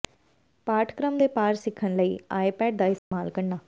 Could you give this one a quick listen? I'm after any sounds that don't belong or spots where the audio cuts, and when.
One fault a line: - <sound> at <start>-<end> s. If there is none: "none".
- dropout at 3.0-3.1 s